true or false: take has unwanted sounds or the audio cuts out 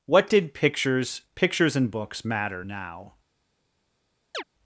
true